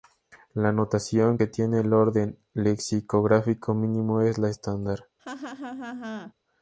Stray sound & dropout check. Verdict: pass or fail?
fail